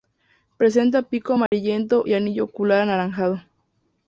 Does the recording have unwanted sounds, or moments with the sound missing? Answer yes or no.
yes